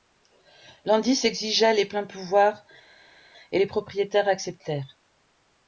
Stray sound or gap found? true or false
false